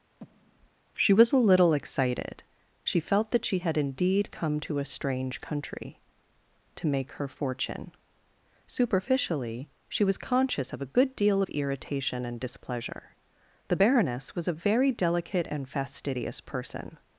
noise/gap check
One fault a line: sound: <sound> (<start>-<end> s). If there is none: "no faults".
sound: breath (0.2-0.7 s)